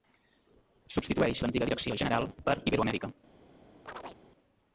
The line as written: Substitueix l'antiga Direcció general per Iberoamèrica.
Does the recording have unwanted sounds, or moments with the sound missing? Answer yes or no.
yes